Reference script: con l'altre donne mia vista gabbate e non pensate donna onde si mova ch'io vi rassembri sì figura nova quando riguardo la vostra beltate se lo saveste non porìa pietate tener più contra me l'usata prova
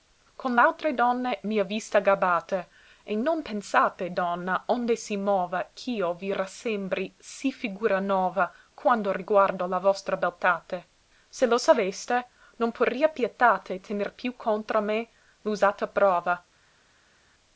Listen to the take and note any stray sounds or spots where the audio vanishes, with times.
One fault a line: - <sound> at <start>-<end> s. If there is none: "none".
none